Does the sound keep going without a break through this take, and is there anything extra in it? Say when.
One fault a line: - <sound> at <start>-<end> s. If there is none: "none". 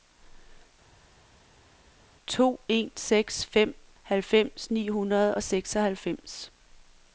none